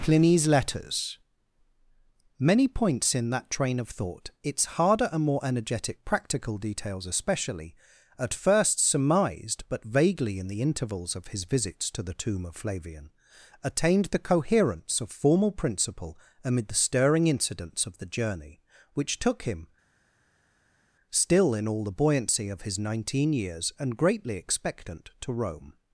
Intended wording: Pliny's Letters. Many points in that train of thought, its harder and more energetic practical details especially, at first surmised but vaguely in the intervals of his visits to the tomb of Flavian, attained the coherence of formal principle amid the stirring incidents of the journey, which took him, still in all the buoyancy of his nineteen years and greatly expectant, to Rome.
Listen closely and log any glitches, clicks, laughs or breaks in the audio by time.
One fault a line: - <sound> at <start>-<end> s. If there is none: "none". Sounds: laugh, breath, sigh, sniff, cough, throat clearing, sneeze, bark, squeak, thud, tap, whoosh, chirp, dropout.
none